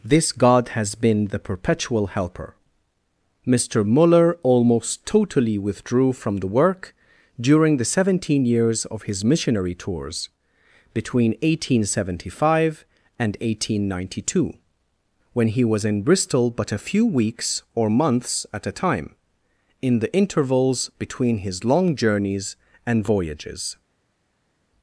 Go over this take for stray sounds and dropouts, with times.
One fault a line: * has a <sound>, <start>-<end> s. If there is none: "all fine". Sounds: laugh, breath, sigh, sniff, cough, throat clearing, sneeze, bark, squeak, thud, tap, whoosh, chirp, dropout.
all fine